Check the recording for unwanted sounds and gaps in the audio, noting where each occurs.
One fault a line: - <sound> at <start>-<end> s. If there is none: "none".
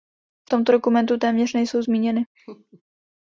- laugh at 2.3-2.8 s